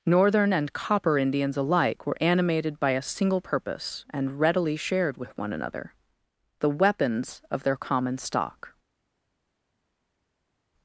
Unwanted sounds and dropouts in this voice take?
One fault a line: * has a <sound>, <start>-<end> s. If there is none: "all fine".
all fine